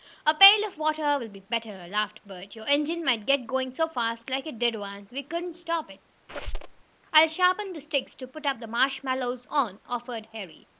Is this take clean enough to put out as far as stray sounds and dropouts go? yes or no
no